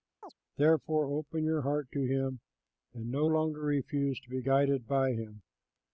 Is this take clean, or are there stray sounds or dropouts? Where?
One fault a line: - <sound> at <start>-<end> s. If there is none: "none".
- chirp at 0.2-0.3 s